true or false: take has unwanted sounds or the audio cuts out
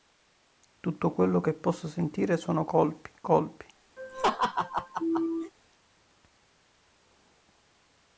true